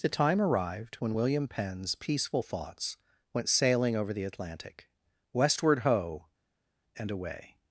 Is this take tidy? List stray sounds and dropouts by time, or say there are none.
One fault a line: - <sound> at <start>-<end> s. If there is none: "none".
none